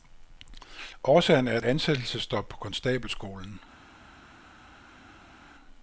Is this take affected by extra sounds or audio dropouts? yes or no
no